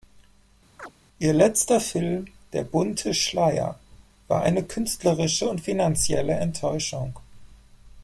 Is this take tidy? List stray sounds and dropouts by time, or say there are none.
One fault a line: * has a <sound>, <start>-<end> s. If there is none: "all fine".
* has a chirp, 0.8-0.9 s